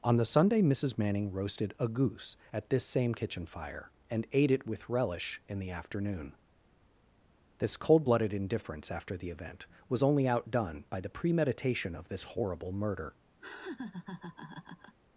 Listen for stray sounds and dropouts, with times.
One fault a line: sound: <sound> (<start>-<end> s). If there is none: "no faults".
sound: laugh (13.4-14.9 s)